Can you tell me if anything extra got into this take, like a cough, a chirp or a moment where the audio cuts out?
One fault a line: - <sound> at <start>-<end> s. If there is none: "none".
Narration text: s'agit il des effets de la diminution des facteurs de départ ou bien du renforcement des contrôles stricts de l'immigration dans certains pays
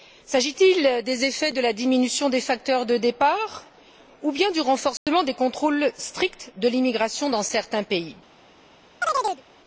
- dropout at 5.0-5.1 s
- chirp at 9.0-9.4 s